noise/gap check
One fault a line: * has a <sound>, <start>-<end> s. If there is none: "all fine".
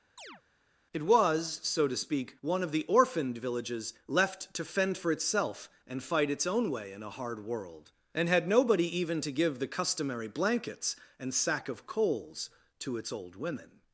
* has a chirp, 0.2-0.4 s